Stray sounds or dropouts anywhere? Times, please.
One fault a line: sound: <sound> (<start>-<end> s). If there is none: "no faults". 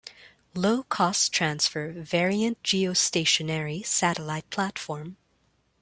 no faults